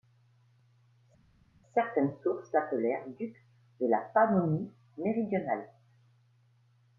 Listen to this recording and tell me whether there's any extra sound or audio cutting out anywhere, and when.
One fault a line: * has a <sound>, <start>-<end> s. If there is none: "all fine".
all fine